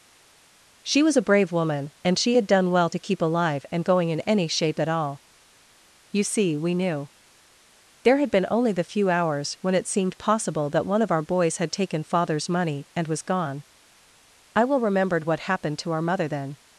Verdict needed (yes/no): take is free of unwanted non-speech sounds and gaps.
yes